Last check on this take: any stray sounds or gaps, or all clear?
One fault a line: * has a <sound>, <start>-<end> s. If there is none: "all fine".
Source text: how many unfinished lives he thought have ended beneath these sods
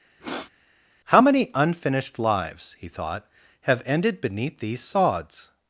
* has a sniff, 0.2-0.5 s